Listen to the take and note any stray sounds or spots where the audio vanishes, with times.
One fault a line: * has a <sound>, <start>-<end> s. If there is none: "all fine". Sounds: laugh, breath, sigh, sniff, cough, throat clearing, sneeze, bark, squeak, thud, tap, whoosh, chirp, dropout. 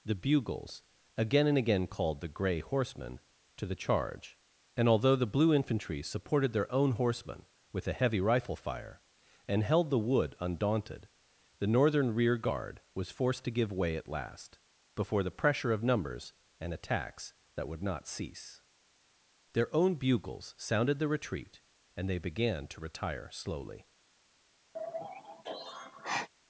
* has a sigh, 24.7-26.3 s